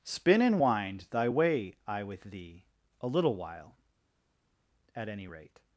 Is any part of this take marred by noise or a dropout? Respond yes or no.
no